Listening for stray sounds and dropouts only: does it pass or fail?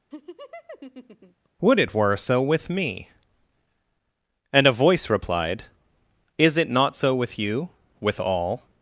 fail